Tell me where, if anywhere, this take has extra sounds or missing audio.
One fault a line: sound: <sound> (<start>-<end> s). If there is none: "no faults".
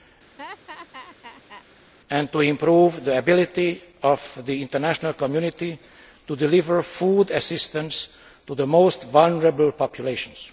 sound: laugh (0.4-1.6 s)